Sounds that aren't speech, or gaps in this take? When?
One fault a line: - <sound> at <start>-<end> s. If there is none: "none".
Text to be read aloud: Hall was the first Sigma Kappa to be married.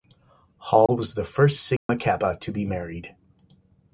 - dropout at 0.9-0.9 s
- dropout at 1.8-1.9 s